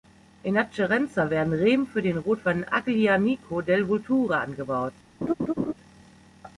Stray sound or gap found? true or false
true